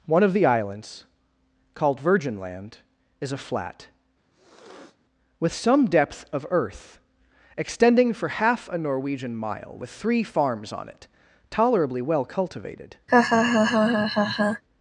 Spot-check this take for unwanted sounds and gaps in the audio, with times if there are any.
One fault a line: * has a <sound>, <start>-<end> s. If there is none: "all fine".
* has a sniff, 4.3-5.0 s
* has a laugh, 13.1-14.6 s